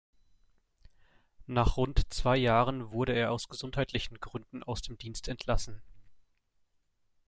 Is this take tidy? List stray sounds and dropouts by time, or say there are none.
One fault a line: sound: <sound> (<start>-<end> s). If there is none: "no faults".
no faults